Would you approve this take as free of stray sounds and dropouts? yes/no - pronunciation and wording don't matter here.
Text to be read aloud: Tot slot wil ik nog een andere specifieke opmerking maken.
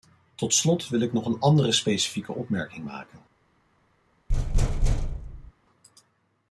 no